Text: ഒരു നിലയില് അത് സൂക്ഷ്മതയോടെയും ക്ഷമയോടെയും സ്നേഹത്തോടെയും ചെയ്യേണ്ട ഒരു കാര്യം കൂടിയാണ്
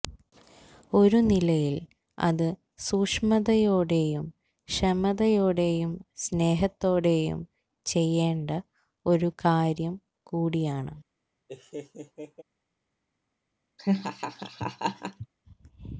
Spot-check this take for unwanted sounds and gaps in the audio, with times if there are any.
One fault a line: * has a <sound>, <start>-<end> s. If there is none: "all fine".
* has a laugh, 11.5-12.4 s
* has a laugh, 13.8-15.3 s